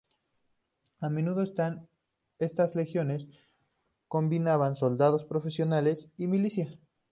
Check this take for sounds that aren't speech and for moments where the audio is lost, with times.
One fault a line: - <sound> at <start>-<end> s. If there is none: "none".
none